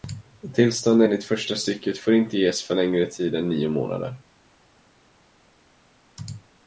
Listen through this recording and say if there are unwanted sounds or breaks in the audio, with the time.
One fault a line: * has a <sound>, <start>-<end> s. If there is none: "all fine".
all fine